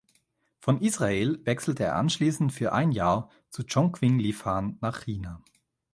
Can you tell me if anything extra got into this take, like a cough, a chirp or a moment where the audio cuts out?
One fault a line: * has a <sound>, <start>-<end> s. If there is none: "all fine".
all fine